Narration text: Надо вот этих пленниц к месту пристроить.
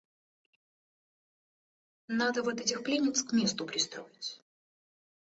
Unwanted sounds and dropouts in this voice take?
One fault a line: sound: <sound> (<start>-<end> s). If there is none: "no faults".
no faults